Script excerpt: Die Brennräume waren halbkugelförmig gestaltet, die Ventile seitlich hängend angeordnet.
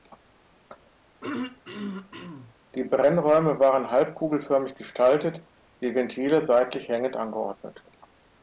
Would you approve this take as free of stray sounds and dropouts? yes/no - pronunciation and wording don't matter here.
no